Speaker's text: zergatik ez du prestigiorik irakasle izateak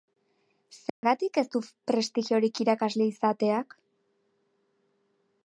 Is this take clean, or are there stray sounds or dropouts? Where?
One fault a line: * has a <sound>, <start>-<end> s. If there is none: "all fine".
* has a dropout, 0.9-1.0 s